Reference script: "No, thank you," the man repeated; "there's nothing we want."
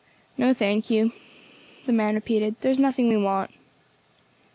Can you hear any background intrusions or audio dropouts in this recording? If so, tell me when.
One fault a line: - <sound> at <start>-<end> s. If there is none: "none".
none